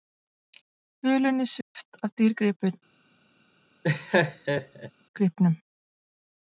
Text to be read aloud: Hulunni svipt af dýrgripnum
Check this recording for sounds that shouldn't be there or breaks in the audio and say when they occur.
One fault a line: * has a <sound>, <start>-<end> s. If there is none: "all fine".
* has a dropout, 1.6-1.8 s
* has a laugh, 3.8-4.9 s